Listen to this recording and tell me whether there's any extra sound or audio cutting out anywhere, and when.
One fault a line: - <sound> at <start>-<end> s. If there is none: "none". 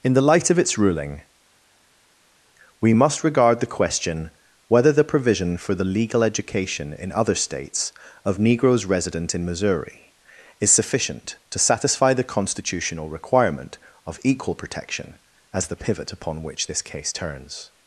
none